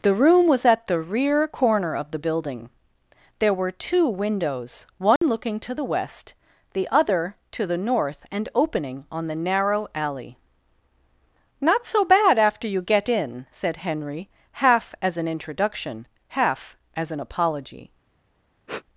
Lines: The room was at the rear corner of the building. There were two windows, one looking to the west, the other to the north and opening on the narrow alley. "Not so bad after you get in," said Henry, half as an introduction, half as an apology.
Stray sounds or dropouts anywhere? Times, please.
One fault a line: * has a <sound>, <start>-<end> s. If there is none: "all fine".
* has a dropout, 5.2-5.2 s
* has a sniff, 18.7-18.8 s